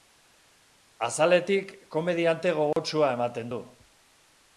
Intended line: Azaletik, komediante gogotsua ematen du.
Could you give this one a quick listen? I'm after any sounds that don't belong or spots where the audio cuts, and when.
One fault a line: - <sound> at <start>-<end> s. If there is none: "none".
- dropout at 2.7-2.8 s